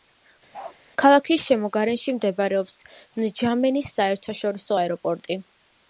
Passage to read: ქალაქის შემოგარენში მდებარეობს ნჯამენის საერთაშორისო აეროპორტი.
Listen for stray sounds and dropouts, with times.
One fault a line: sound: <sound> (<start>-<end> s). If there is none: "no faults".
sound: bark (0.5-0.8 s)